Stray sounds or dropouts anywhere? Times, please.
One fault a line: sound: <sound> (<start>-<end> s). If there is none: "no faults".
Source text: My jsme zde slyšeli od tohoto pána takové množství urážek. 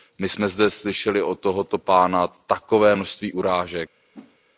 sound: whoosh (4.1-4.4 s)